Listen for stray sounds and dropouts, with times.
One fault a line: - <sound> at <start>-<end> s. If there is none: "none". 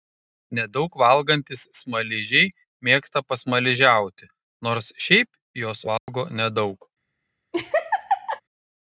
- dropout at 6.0-6.1 s
- laugh at 7.5-8.4 s